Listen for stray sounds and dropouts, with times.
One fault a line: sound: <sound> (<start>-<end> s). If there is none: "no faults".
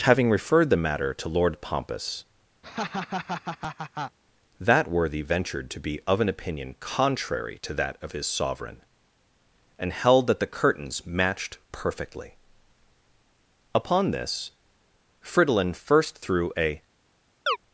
sound: laugh (2.6-4.2 s)
sound: chirp (17.5-17.6 s)